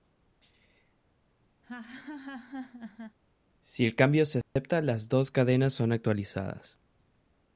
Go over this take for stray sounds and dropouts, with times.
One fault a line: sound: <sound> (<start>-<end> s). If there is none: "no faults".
sound: laugh (1.6-3.2 s)
sound: dropout (4.4-4.6 s)